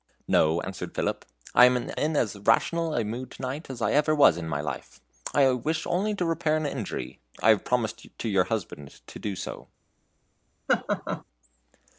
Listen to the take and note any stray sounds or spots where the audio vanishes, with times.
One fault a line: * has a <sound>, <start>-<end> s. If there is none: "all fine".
* has a laugh, 10.7-11.2 s